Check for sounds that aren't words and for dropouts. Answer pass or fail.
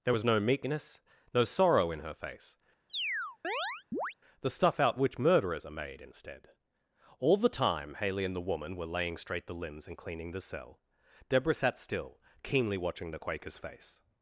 fail